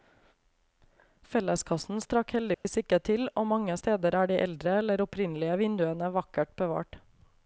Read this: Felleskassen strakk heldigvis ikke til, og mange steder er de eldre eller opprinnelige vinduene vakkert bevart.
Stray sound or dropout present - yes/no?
yes